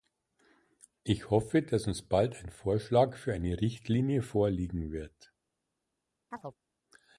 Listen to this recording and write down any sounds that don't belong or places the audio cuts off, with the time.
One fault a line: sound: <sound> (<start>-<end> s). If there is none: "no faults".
sound: chirp (6.3-6.6 s)